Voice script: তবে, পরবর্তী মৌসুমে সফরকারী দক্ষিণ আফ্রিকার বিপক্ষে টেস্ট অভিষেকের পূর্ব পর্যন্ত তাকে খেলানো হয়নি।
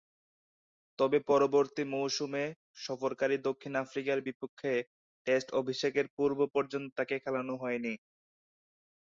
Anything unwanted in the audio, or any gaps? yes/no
no